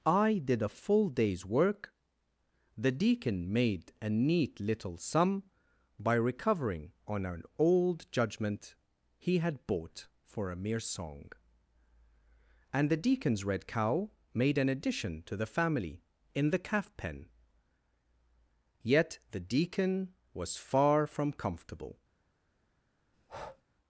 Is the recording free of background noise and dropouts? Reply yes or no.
no